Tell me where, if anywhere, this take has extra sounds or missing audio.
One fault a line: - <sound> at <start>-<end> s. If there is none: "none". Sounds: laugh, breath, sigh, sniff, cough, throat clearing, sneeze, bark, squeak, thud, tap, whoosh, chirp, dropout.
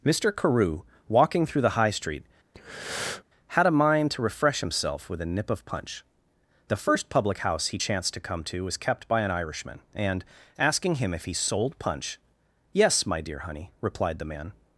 - breath at 2.5-3.2 s